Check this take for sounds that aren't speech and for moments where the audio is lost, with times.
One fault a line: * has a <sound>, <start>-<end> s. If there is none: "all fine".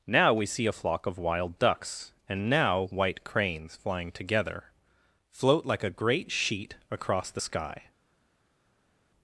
all fine